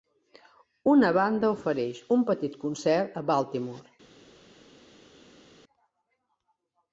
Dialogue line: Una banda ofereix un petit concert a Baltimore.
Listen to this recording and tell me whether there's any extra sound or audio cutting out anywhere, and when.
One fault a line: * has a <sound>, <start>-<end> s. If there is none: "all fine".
all fine